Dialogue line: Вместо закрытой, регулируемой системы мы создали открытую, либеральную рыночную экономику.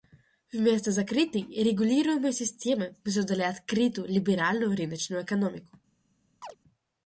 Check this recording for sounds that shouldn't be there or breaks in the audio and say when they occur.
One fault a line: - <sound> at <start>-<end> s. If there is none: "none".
- chirp at 6.4-6.6 s